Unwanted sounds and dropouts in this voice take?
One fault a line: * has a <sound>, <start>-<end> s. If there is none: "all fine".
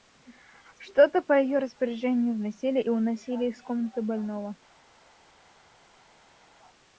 all fine